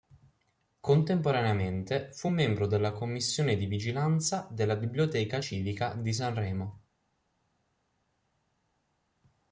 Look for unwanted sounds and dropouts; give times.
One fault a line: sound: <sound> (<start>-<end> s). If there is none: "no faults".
no faults